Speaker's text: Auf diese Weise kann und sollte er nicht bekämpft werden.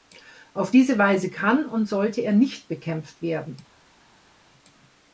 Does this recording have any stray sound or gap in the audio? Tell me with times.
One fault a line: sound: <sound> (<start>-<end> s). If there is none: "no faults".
no faults